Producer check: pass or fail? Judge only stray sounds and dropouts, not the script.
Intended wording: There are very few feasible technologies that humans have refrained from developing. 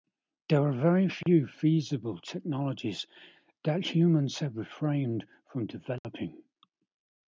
fail